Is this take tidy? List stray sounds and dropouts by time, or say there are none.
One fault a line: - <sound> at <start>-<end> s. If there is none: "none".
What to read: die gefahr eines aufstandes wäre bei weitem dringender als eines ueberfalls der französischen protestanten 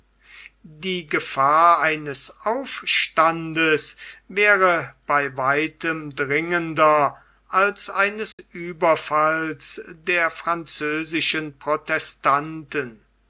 - dropout at 8.3-8.4 s